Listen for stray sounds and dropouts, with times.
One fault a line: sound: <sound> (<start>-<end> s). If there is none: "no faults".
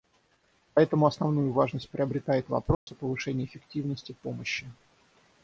sound: dropout (2.7-2.9 s)